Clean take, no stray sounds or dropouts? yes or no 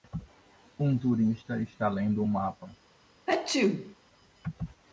no